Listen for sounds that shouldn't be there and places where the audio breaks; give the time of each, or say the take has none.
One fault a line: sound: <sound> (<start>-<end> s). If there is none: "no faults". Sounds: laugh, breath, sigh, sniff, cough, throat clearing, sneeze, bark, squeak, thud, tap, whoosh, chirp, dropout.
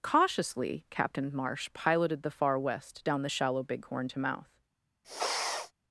sound: sniff (5.0-5.7 s)